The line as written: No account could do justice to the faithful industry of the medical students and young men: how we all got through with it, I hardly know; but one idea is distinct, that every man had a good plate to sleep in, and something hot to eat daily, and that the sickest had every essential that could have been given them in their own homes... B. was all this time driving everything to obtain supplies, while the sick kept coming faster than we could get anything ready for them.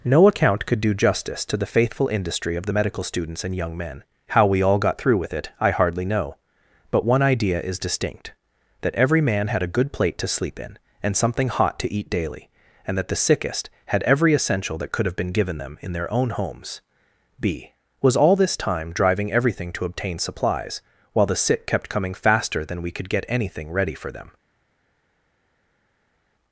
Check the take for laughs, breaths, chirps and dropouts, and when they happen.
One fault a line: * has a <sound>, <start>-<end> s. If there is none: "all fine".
all fine